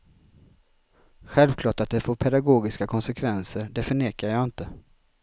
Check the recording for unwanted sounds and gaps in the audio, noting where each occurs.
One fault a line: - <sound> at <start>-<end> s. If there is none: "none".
none